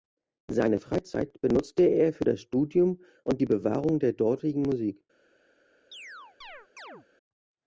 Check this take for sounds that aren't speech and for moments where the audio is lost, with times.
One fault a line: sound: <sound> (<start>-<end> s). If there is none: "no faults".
sound: chirp (5.9-7.1 s)